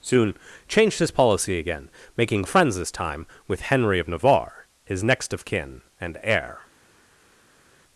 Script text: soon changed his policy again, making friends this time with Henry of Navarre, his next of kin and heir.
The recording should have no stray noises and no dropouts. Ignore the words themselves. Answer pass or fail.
pass